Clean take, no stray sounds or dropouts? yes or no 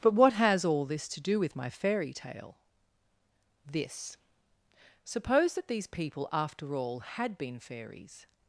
yes